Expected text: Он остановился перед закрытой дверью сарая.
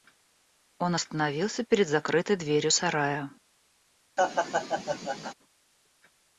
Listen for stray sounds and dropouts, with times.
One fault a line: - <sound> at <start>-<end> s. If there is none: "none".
- laugh at 4.2-5.3 s